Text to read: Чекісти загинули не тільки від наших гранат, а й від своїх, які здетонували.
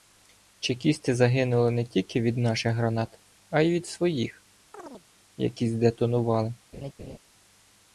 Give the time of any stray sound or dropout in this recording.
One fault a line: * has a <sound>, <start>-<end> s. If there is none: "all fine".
* has a chirp, 4.7-5.1 s
* has a laugh, 6.7-7.2 s